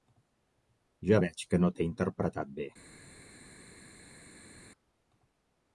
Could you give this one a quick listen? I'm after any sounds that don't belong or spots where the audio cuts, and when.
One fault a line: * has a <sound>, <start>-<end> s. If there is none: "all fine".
all fine